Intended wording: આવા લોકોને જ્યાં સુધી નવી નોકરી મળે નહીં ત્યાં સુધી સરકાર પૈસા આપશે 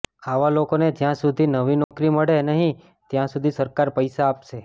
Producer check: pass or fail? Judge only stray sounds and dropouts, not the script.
fail